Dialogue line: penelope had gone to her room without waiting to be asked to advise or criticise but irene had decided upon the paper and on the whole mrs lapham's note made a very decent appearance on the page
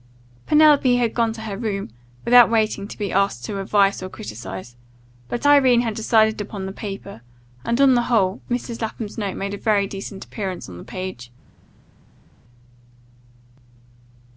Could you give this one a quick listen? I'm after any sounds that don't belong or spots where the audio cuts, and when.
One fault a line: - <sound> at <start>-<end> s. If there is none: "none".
none